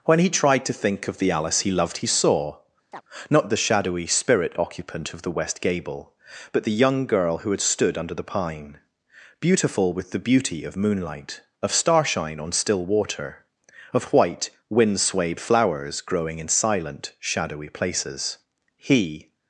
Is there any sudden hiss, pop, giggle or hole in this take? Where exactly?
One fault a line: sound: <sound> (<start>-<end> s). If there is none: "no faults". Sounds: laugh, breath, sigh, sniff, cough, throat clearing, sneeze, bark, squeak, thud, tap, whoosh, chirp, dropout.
sound: chirp (2.9-3.0 s)